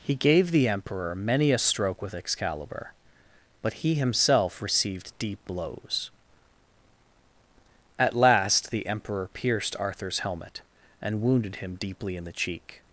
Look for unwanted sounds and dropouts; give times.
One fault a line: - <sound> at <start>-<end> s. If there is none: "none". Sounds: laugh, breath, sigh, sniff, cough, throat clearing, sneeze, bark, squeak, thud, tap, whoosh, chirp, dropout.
none